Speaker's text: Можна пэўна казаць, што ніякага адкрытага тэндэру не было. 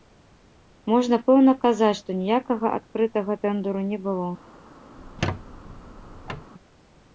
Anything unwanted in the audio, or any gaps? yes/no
yes